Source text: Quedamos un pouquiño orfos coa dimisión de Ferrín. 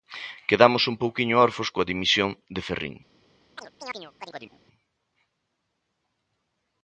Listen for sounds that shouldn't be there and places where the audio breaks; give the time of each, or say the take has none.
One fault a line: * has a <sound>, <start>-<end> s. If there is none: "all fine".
* has a chirp, 3.6-4.6 s